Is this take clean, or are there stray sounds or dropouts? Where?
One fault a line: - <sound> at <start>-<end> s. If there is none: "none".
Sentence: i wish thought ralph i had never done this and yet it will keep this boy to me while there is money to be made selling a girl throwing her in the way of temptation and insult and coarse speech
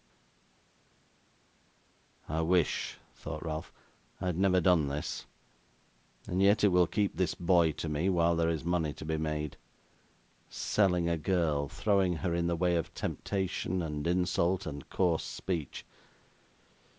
none